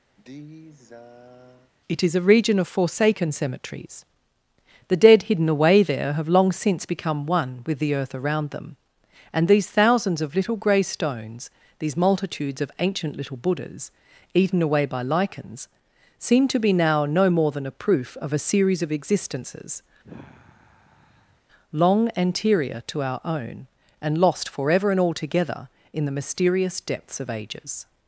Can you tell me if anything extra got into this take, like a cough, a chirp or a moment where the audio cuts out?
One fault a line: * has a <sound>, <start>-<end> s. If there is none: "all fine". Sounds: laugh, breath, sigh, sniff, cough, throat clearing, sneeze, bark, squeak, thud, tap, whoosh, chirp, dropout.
* has a sigh, 0.2-1.7 s
* has a sigh, 20.0-21.4 s